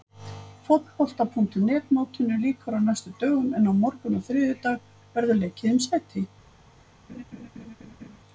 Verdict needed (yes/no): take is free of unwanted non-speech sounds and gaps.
no